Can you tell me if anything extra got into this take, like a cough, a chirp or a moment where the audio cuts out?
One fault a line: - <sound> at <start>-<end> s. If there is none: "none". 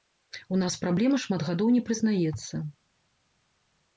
none